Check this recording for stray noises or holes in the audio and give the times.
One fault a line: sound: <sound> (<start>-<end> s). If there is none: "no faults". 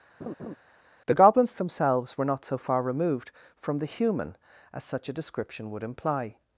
sound: laugh (0.2-0.6 s)